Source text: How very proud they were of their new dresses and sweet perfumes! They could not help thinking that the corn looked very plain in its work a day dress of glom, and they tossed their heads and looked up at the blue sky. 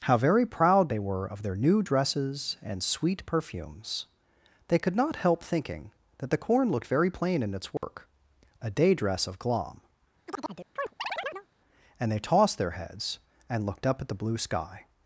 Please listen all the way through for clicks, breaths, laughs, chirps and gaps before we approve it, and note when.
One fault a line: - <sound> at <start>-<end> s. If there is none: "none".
- dropout at 7.8-7.8 s
- chirp at 10.3-11.5 s